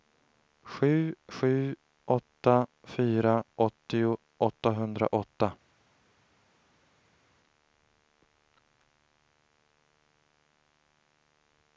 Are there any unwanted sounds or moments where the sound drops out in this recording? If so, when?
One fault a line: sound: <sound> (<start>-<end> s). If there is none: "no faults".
no faults